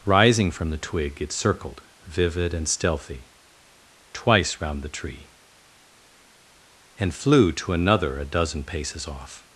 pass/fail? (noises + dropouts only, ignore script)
pass